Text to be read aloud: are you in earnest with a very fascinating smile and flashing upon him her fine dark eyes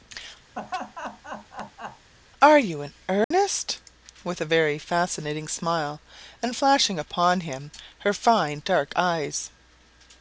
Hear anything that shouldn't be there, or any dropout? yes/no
yes